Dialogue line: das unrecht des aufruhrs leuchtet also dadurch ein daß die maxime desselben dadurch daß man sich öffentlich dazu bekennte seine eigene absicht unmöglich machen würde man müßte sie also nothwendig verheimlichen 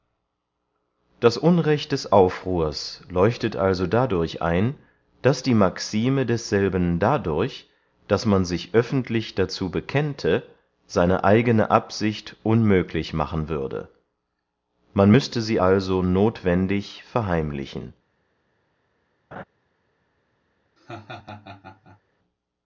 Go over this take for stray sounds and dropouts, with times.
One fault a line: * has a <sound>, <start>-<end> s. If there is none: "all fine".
* has a laugh, 19.3-19.4 s
* has a laugh, 20.8-22.0 s